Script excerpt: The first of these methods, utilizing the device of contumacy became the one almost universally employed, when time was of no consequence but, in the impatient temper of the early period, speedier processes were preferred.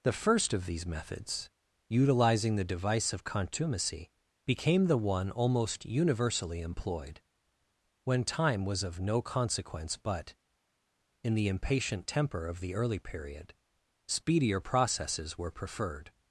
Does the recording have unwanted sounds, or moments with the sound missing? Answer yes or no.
no